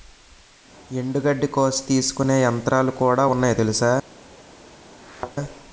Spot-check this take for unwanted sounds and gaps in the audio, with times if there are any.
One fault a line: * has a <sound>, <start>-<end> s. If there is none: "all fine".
* has a thud, 5.0-5.4 s